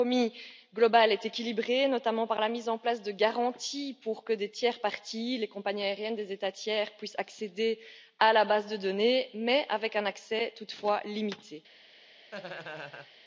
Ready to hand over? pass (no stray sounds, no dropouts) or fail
fail